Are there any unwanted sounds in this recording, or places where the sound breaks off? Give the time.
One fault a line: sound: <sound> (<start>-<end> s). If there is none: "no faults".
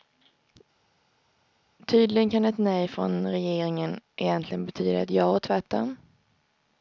no faults